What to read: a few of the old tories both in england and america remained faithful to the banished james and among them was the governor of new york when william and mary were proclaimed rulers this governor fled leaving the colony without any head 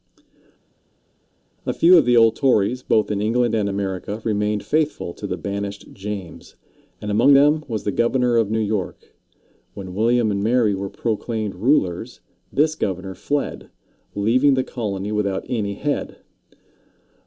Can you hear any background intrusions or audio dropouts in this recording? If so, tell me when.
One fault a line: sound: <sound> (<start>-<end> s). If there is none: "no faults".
no faults